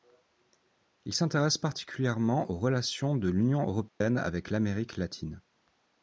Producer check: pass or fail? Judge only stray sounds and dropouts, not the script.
fail